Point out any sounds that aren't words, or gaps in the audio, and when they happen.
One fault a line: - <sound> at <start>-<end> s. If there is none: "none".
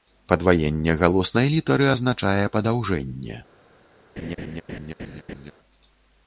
- laugh at 4.2-5.5 s